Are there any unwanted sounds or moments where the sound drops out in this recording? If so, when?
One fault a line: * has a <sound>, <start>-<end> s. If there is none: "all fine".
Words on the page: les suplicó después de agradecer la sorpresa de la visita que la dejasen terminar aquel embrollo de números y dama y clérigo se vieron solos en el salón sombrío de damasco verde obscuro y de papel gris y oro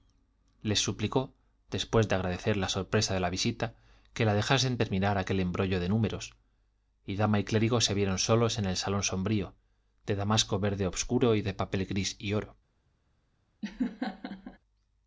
* has a laugh, 13.6-14.6 s